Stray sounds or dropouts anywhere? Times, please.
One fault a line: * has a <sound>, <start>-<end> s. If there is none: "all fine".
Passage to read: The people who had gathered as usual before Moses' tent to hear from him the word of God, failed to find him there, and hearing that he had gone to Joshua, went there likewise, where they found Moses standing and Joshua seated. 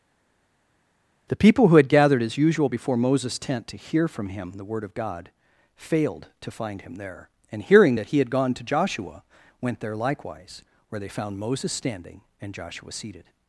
all fine